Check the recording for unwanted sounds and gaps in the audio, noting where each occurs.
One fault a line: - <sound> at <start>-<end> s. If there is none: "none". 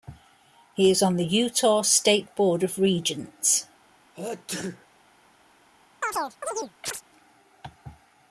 - sneeze at 4.1-4.9 s
- chirp at 6.0-7.0 s